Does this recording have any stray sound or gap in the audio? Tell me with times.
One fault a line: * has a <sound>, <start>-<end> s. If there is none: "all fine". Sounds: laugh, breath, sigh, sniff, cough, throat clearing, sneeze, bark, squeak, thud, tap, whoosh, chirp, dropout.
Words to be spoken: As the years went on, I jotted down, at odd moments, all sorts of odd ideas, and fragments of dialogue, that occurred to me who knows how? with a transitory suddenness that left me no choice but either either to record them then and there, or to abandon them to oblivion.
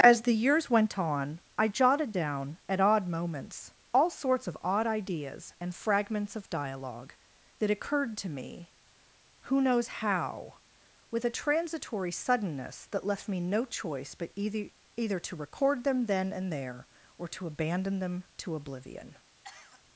* has a cough, 19.4-19.8 s